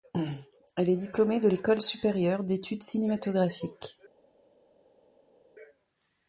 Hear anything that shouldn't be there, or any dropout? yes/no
no